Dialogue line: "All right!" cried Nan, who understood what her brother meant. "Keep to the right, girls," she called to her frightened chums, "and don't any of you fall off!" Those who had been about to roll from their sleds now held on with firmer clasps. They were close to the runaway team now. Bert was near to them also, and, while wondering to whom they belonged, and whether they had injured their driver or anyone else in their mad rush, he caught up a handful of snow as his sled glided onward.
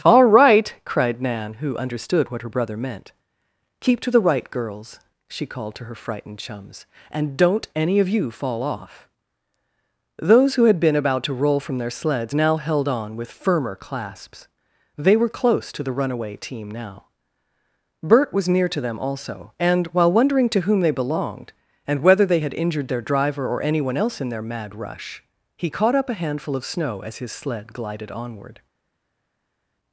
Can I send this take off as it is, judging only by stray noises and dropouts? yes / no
yes